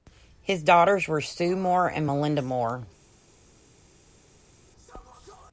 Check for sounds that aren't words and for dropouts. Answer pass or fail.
pass